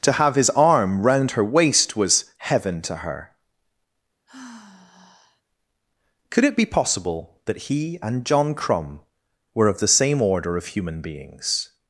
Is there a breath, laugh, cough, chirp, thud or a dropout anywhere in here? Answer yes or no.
yes